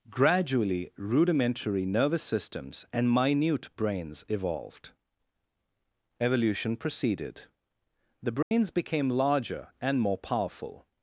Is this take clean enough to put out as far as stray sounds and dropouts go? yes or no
no